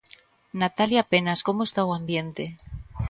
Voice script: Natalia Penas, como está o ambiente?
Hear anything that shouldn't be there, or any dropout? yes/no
no